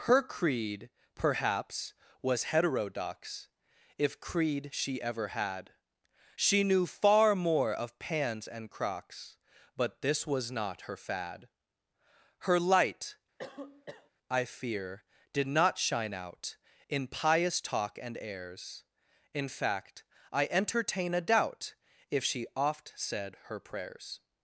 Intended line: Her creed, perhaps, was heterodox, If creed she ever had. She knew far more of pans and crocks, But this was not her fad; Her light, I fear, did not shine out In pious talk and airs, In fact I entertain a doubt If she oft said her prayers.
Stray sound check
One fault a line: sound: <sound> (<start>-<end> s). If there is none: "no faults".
sound: cough (13.4-14.1 s)